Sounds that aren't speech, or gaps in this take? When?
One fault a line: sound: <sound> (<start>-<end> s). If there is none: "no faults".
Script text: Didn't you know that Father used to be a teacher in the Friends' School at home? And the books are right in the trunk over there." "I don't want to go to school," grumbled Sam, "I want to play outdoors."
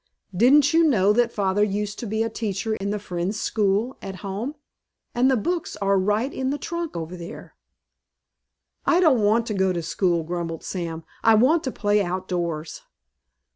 sound: dropout (2.8-2.8 s)